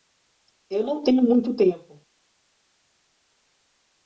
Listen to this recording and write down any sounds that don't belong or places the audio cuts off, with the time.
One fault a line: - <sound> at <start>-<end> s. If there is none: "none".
none